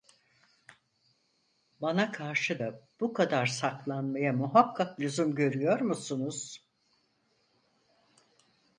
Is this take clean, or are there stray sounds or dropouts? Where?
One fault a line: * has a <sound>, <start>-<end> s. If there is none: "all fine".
all fine